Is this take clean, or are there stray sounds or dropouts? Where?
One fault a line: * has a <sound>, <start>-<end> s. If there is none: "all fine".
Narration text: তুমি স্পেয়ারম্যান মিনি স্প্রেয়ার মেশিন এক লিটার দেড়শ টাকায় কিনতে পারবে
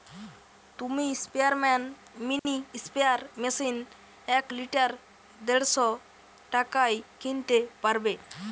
* has a dropout, 2.4-2.5 s